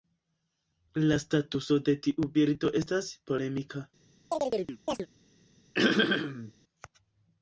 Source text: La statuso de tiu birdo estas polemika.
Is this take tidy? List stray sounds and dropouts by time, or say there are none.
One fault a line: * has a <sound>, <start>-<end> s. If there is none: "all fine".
* has a chirp, 4.3-5.1 s
* has a throat clearing, 5.7-6.5 s